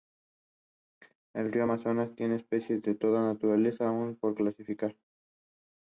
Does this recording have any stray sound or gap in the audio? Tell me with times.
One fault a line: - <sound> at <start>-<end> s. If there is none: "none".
none